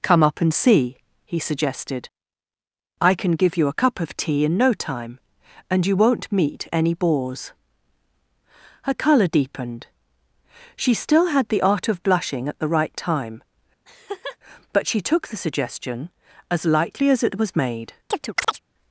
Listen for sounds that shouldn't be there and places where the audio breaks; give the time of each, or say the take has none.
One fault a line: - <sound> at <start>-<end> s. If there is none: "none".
- laugh at 13.9-14.4 s
- chirp at 18.1-18.6 s